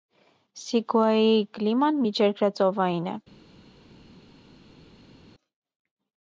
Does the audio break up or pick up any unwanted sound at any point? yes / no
no